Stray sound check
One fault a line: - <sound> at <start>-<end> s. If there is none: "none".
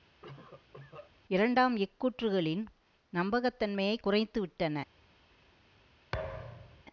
- cough at 0.2-1.1 s
- thud at 6.1-6.8 s